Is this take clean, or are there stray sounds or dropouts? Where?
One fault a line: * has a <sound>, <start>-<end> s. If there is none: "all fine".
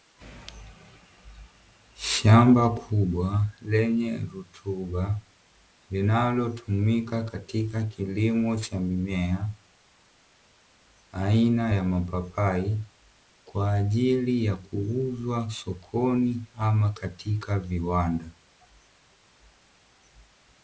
all fine